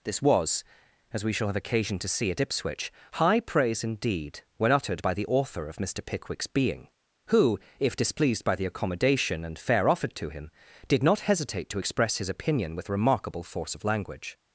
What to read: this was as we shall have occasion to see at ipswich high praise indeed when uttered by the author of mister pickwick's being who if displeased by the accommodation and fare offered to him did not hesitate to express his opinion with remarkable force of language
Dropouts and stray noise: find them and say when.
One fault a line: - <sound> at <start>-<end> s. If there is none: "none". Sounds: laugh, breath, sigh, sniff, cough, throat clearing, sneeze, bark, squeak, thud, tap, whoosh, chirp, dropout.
none